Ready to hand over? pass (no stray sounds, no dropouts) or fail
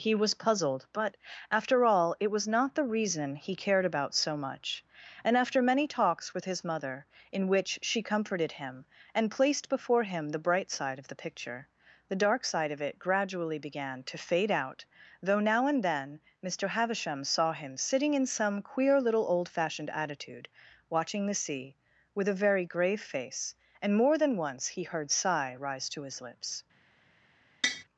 fail